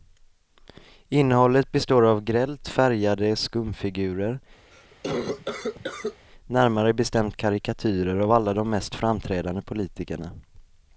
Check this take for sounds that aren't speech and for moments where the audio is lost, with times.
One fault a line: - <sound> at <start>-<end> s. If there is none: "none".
- cough at 4.7-6.3 s